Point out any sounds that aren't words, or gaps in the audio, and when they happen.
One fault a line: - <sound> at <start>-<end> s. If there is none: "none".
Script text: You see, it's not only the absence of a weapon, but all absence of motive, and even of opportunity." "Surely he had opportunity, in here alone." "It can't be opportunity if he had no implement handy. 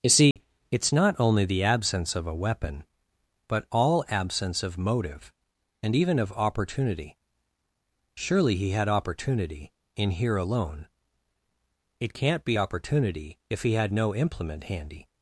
- dropout at 0.3-0.4 s